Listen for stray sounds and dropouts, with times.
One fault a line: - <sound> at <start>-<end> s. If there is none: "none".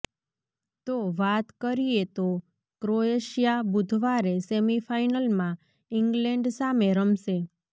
none